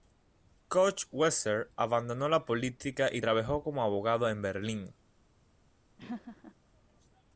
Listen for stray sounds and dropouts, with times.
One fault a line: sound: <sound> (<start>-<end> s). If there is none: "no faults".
sound: laugh (6.0-6.5 s)